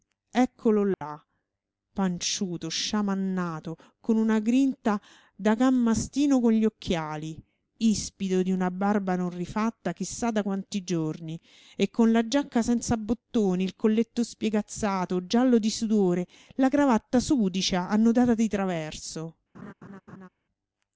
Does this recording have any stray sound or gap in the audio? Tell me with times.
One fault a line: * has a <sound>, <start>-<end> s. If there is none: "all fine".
* has a dropout, 0.9-1.0 s
* has a laugh, 19.5-20.3 s